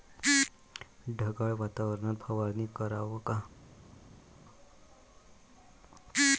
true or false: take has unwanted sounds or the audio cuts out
false